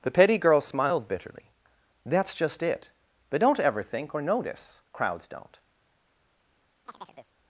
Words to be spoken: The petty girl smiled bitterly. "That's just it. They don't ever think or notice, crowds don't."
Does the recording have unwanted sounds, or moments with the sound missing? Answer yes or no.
yes